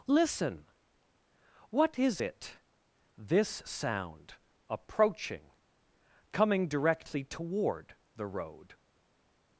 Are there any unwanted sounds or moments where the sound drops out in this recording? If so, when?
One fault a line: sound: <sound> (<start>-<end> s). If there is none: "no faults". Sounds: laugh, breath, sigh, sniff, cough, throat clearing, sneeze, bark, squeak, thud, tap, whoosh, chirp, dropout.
no faults